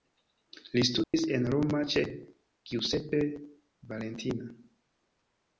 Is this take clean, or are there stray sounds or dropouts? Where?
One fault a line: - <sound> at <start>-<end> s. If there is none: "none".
- dropout at 1.0-1.1 s